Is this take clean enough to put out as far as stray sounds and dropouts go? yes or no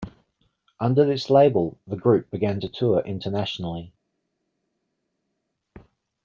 yes